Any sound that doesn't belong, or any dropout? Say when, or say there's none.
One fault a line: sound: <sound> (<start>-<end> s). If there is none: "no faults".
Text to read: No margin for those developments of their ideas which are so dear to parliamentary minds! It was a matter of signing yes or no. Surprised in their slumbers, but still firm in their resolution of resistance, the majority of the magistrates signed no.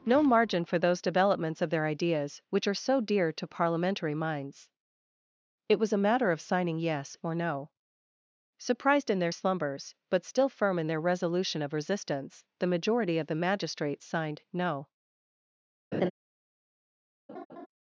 sound: laugh (15.9-16.1 s)
sound: laugh (17.3-17.7 s)